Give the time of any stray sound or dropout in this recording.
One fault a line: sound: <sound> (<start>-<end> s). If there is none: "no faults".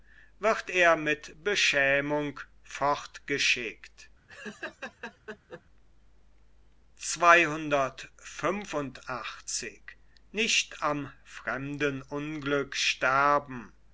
sound: laugh (4.3-5.6 s)